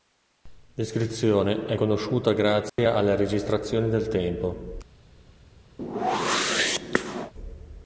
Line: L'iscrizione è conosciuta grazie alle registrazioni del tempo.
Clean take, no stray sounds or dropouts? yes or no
no